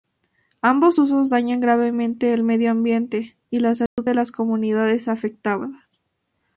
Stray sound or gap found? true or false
true